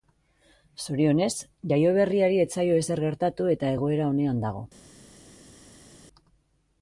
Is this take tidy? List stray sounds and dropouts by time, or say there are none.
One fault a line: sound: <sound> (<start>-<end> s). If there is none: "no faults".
no faults